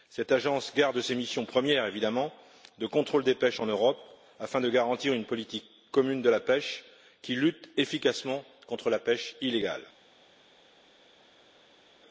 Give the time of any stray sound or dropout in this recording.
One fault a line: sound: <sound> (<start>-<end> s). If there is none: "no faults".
no faults